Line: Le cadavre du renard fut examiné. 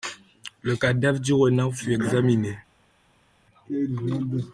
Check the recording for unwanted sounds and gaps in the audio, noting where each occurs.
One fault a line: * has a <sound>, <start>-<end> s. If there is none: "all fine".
all fine